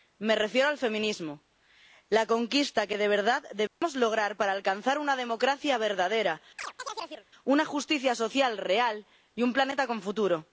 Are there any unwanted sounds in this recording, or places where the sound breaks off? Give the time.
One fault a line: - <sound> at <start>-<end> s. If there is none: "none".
- dropout at 3.7-3.8 s
- chirp at 6.6-7.3 s